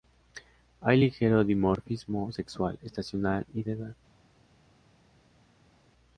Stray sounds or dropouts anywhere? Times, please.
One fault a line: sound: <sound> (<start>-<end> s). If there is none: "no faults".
no faults